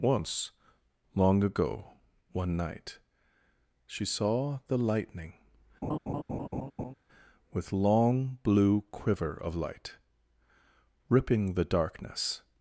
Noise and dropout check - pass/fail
fail